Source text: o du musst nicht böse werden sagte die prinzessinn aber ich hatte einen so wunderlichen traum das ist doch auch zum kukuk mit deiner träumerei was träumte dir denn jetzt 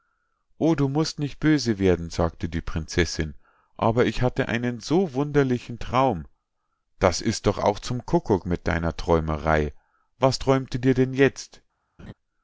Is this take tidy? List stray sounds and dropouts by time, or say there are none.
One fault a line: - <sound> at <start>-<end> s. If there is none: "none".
- laugh at 12.0-12.1 s